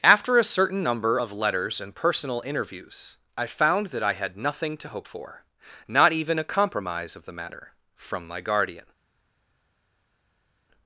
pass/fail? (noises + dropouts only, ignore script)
pass